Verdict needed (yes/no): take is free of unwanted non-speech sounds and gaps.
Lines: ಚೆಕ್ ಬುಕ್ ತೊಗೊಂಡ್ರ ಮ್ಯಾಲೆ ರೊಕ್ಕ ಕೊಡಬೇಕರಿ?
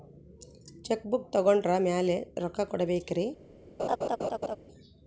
no